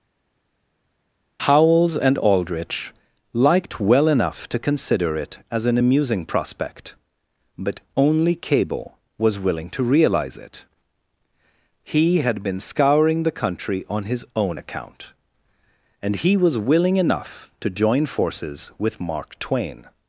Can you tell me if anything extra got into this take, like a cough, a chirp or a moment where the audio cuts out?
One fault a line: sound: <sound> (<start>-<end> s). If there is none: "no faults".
no faults